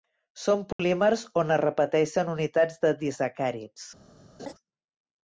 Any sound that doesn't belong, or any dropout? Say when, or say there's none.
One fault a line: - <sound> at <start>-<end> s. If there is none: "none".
- dropout at 0.7-0.8 s
- laugh at 4.4-4.5 s